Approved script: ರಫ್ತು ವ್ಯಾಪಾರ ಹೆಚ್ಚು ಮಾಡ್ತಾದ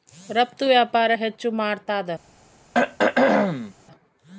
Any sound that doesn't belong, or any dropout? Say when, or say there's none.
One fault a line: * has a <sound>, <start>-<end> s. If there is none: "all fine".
* has a throat clearing, 2.7-3.7 s